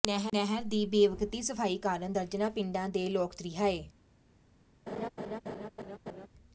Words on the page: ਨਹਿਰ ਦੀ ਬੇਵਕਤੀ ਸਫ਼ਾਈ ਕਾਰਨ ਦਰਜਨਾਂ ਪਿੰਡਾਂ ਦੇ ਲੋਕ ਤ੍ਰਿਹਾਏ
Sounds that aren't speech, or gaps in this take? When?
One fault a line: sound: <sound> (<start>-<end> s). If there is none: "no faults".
sound: laugh (4.9-6.3 s)